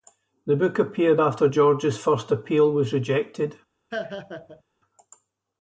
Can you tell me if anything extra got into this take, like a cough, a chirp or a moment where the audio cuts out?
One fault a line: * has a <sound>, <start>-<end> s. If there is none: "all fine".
* has a laugh, 3.9-4.6 s